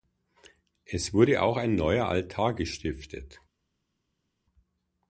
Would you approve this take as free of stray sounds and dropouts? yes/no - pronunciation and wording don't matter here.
yes